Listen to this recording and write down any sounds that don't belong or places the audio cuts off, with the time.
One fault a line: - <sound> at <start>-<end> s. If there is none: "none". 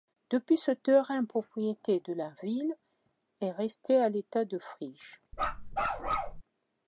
- bark at 5.3-6.4 s